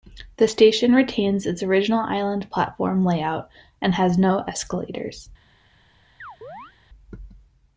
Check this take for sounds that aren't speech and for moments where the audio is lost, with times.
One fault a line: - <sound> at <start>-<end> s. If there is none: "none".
- chirp at 6.2-6.7 s